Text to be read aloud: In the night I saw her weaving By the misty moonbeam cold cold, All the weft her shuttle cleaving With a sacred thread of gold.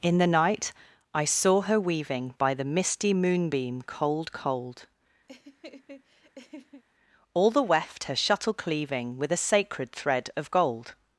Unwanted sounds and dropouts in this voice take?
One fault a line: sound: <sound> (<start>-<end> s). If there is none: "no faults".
sound: laugh (5.3-6.8 s)